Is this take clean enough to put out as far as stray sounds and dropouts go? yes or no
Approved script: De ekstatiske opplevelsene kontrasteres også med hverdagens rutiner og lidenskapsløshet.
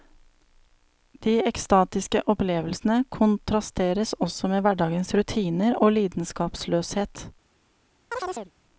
no